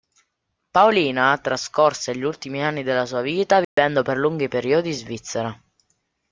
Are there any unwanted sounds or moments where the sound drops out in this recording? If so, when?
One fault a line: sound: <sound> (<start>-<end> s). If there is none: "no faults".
sound: dropout (3.6-3.8 s)